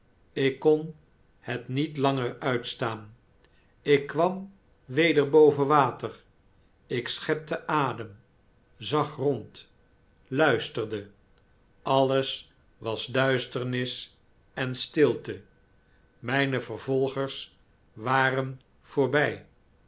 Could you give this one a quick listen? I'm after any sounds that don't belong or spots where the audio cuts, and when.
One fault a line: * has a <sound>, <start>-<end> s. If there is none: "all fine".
all fine